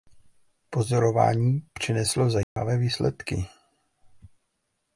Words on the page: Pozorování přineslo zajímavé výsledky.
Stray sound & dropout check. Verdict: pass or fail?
fail